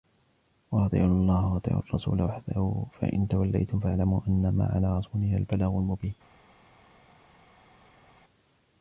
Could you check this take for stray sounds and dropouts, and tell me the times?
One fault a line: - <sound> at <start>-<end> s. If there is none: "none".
none